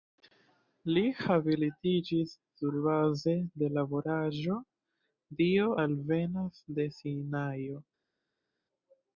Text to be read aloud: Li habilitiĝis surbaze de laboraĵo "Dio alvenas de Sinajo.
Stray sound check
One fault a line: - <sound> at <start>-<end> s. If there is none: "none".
none